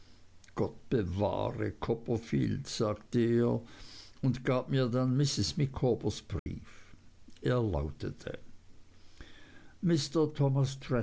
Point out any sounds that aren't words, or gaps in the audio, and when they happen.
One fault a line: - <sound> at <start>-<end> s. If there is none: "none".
- dropout at 6.4-6.5 s